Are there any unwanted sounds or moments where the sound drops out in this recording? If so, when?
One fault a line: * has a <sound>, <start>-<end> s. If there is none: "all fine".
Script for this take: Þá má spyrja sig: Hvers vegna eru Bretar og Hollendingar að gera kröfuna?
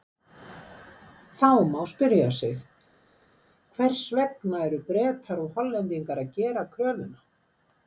all fine